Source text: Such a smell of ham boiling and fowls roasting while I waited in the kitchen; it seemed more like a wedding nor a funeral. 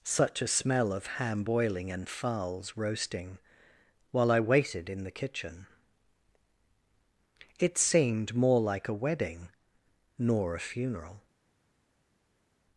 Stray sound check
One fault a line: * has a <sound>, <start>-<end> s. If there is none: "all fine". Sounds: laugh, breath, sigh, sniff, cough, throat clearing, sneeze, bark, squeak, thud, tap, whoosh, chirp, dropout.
all fine